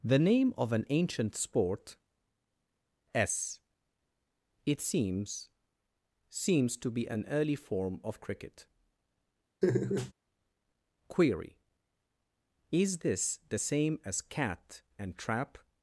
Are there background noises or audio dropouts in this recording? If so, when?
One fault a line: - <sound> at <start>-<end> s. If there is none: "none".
- laugh at 9.6-10.1 s